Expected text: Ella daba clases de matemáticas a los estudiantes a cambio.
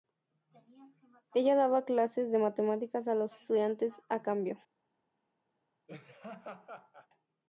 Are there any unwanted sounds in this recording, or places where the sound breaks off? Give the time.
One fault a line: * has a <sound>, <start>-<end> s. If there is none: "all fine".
* has a laugh, 5.9-7.1 s